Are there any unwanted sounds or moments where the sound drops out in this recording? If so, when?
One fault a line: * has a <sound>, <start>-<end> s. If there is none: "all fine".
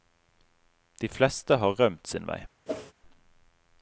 * has a whoosh, 2.7-2.9 s